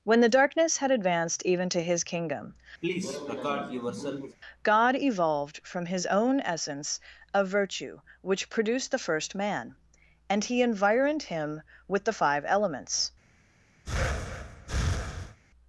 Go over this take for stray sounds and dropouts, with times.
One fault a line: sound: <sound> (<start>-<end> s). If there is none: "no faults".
sound: cough (2.8-4.4 s)
sound: breath (13.8-15.4 s)